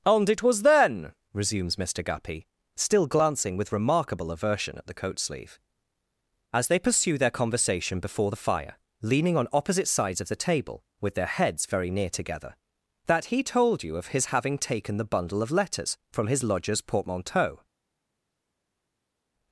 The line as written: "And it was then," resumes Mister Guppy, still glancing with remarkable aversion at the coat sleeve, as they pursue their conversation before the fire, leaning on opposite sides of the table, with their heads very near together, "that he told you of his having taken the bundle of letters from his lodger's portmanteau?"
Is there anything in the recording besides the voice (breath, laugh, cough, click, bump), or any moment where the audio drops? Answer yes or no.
no